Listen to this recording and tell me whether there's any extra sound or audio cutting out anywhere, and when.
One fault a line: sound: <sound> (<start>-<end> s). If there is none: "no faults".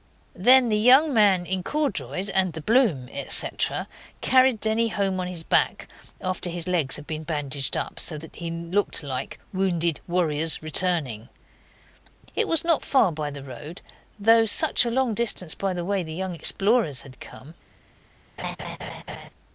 sound: laugh (18.4-19.3 s)